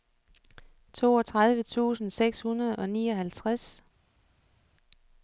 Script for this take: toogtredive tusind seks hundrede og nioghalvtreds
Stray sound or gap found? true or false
false